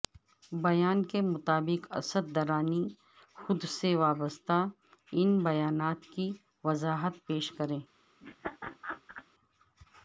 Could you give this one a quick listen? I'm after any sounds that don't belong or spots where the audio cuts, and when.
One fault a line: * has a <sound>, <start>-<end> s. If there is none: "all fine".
* has a laugh, 8.2-9.3 s